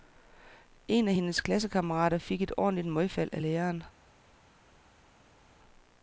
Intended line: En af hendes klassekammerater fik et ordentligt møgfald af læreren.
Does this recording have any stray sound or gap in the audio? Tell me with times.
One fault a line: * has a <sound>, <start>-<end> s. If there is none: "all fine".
all fine